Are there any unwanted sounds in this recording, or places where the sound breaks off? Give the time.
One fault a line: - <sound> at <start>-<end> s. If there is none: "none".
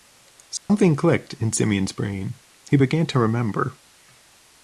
- dropout at 0.6-0.7 s